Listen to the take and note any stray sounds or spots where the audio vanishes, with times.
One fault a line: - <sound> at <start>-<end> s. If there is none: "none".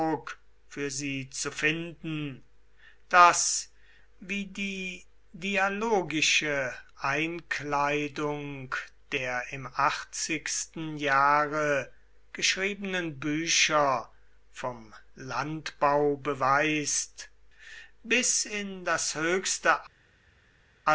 none